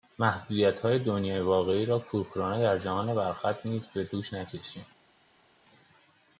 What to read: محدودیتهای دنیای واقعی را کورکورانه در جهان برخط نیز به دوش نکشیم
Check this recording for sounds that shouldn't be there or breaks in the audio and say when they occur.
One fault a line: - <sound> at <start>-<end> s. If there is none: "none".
none